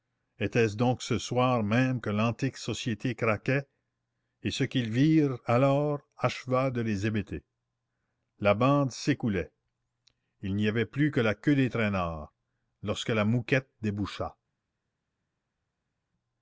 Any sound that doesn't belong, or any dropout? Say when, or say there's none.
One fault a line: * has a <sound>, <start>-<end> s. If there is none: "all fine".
all fine